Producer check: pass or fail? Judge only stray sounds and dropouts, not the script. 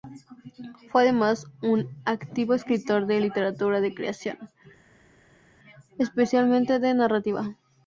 pass